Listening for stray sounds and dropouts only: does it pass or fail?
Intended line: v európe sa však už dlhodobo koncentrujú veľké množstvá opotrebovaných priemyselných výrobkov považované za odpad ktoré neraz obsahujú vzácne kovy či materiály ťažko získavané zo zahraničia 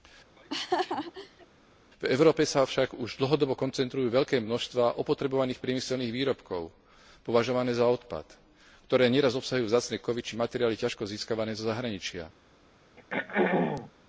fail